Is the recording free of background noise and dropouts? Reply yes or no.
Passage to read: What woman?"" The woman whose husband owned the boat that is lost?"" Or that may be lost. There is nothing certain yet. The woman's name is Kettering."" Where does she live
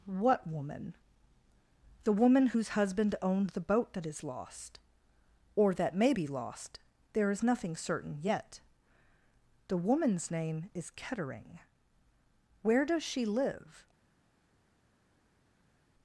yes